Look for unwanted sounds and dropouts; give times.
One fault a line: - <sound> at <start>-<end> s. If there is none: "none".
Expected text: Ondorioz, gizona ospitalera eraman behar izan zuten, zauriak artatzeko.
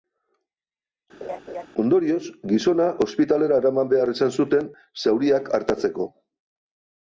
- laugh at 1.2-1.7 s